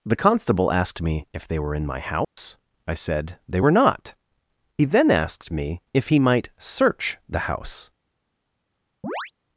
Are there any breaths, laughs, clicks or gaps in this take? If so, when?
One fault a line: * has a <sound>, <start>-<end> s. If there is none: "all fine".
* has a dropout, 2.2-2.4 s
* has a chirp, 9.0-9.3 s